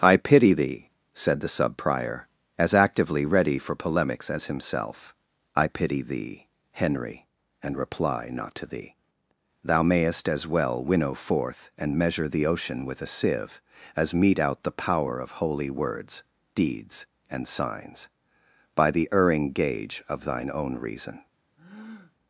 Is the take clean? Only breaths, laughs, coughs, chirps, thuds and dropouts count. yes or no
no